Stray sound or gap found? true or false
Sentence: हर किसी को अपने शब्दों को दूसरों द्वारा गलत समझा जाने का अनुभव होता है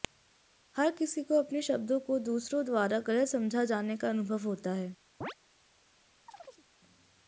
true